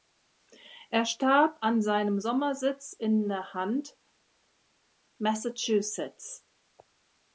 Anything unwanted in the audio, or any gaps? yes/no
no